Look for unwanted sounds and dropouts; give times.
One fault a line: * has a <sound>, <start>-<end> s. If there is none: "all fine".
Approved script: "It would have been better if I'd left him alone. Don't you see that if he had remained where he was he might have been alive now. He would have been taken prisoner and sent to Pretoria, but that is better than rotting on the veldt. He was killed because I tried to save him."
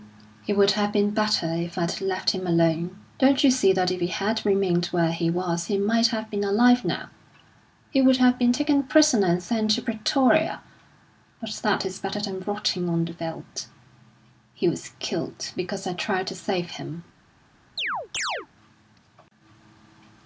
* has a chirp, 17.8-18.5 s